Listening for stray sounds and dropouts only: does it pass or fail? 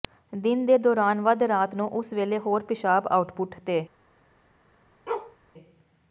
fail